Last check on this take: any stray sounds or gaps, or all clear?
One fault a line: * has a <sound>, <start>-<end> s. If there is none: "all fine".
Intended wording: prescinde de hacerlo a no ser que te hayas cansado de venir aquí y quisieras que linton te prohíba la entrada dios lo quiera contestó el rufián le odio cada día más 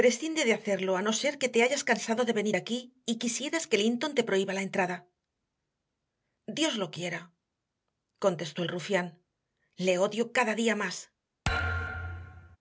* has a thud, 11.4-12.6 s